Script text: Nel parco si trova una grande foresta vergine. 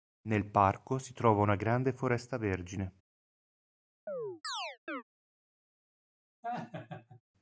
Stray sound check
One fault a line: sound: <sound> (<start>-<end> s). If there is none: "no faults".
sound: chirp (4.1-5.0 s)
sound: laugh (6.4-7.2 s)